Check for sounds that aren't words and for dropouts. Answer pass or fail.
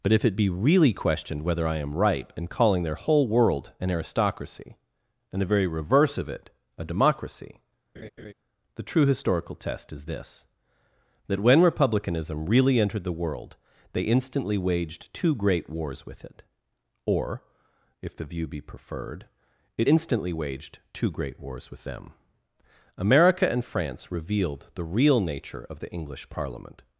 fail